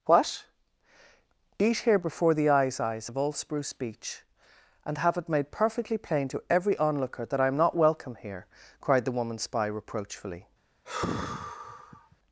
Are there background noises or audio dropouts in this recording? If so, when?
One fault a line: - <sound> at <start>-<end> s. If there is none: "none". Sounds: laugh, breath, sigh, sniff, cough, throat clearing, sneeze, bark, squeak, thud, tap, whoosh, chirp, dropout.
- sigh at 10.8-12.2 s